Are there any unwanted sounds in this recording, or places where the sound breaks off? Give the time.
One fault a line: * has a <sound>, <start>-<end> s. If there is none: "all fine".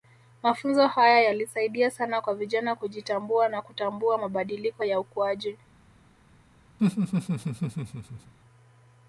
* has a laugh, 6.8-8.3 s